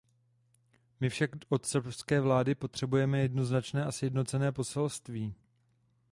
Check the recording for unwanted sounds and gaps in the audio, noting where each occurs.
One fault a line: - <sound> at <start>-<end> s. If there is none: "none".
none